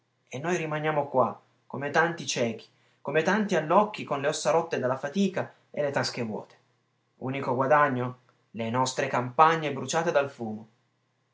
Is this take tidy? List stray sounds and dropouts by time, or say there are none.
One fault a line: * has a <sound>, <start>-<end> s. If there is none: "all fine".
all fine